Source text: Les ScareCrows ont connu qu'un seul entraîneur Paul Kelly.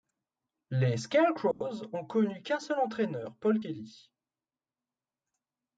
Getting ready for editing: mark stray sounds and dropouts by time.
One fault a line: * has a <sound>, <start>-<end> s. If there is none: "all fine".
* has a dropout, 1.5-1.6 s